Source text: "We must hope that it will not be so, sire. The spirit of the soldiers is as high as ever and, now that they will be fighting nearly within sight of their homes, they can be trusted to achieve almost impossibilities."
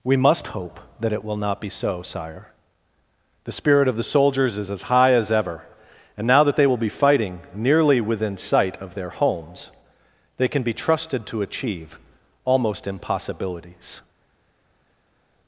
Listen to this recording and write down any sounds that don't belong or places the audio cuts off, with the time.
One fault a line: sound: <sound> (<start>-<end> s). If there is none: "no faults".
no faults